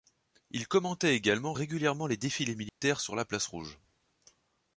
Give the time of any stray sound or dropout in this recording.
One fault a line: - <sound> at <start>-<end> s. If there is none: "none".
- dropout at 2.7-2.8 s